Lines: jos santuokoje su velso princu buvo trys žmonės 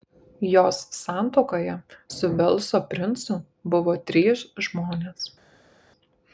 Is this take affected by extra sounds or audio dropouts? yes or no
no